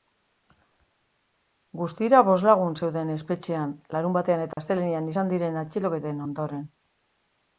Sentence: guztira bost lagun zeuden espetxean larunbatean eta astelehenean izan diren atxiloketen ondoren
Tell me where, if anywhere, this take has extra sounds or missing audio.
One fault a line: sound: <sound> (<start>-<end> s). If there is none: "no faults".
sound: dropout (4.5-4.6 s)